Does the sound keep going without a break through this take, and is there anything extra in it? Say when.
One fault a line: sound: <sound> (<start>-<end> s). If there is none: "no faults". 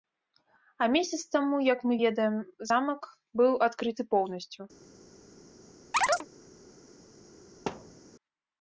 sound: chirp (5.9-6.3 s)
sound: thud (7.7-8.0 s)